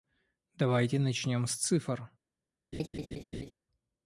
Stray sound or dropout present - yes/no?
yes